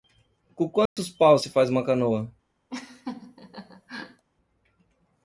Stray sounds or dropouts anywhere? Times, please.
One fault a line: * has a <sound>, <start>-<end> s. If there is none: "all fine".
* has a dropout, 0.9-1.0 s
* has a laugh, 2.7-4.2 s